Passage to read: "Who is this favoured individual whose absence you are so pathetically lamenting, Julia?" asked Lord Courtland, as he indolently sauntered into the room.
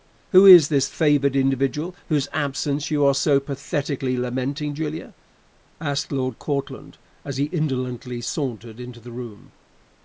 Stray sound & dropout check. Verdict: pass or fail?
pass